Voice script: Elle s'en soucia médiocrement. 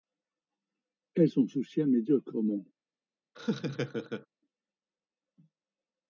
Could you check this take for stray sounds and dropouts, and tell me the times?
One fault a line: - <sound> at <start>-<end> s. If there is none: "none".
- laugh at 3.3-4.3 s